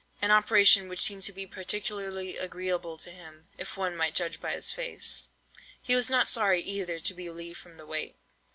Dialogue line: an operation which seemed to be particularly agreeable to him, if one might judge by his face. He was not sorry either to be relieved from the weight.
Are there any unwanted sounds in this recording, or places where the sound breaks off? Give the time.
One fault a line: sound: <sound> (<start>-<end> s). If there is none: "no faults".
no faults